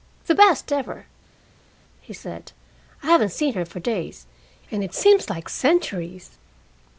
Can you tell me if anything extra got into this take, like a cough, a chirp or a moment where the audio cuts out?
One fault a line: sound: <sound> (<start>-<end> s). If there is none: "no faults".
no faults